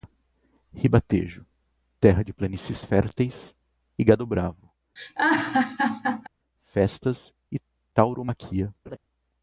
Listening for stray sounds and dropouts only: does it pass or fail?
fail